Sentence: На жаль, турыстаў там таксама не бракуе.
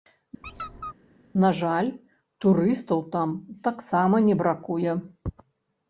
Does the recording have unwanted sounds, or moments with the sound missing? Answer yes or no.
yes